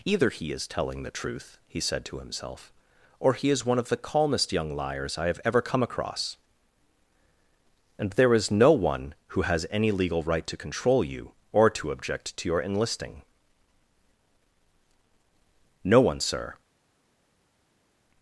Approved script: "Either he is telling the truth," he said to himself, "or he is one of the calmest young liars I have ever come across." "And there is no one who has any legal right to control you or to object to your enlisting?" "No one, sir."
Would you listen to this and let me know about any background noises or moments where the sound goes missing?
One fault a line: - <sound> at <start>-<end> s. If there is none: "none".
none